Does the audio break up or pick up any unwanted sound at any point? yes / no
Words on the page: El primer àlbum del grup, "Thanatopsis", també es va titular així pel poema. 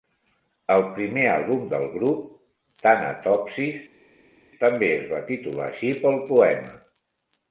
no